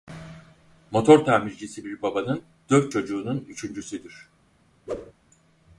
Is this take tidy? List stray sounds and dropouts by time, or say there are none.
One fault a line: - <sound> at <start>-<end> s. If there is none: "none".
- whoosh at 4.9-5.1 s